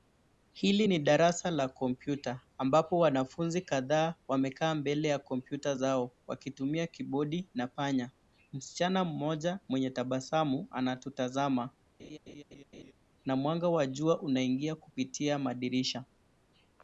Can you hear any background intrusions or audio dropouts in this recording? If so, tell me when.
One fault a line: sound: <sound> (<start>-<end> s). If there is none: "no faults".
sound: laugh (12.0-12.9 s)